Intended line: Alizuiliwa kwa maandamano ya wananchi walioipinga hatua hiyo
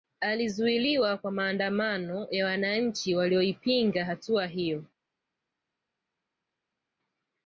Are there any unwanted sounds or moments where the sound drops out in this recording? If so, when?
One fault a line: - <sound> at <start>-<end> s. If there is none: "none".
none